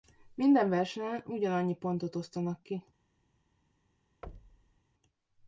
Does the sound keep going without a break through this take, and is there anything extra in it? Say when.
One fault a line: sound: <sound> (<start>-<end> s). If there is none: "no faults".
sound: thud (4.2-4.8 s)